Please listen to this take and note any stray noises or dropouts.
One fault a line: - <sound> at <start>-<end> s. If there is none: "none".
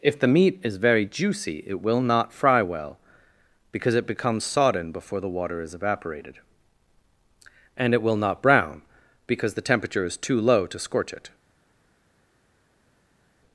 none